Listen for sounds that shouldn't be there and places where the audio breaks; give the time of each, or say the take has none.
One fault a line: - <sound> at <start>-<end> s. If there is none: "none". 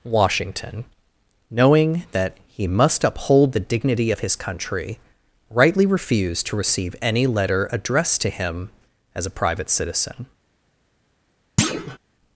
- thud at 11.6-12.0 s